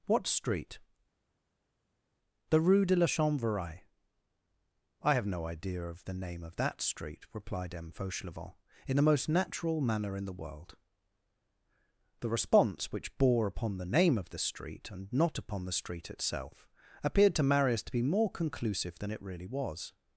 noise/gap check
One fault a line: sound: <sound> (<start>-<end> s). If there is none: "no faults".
no faults